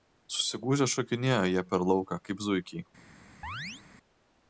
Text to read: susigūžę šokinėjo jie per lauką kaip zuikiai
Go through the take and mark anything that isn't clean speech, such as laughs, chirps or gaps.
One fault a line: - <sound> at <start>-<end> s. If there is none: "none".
- chirp at 3.4-3.8 s